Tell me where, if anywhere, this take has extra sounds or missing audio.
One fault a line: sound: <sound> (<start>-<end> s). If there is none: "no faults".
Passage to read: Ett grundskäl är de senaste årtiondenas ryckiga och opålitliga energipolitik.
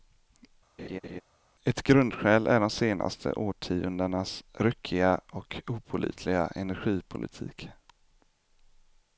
sound: laugh (0.8-1.2 s)